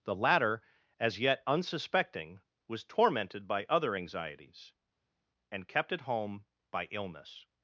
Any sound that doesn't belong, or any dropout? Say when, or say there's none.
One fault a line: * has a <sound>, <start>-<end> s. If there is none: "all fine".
all fine